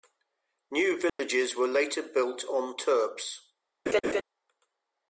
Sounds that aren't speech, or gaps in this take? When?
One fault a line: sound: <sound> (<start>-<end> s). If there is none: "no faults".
sound: dropout (1.1-1.2 s)
sound: laugh (3.9-4.2 s)